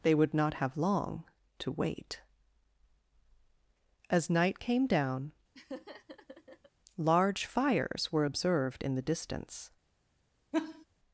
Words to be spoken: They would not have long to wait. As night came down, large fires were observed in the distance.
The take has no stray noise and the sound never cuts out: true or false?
false